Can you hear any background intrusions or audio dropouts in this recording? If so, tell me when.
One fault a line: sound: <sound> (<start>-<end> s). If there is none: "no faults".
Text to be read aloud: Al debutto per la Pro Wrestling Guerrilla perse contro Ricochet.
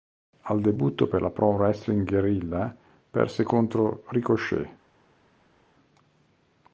no faults